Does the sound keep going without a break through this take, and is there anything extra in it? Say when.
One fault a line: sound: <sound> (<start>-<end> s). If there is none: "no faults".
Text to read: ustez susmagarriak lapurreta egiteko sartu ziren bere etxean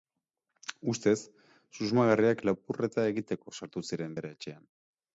no faults